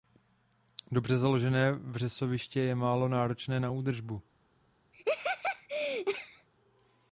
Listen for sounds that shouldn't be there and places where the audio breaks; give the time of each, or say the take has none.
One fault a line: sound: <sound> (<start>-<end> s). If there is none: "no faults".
sound: laugh (4.9-6.5 s)